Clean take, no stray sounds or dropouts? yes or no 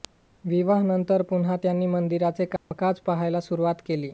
no